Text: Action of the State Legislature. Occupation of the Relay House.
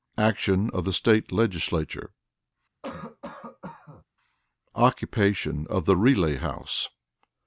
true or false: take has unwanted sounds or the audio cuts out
true